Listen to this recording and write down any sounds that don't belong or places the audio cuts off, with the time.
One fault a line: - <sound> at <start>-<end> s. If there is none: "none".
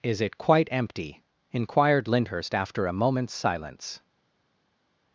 none